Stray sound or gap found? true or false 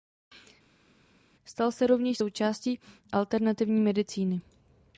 false